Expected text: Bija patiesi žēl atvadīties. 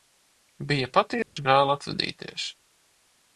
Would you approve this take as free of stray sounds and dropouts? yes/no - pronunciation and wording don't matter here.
no